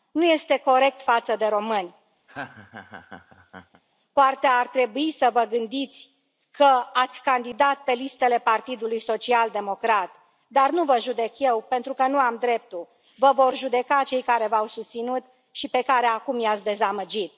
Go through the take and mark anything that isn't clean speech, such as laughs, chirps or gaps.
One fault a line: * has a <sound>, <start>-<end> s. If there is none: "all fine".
* has a laugh, 2.3-3.8 s